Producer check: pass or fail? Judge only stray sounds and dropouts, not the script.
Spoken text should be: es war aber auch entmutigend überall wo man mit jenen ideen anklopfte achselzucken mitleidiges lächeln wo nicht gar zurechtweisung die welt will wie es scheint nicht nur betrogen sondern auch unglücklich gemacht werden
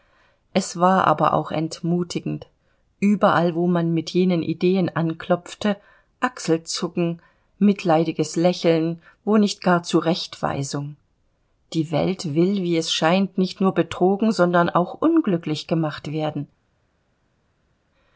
pass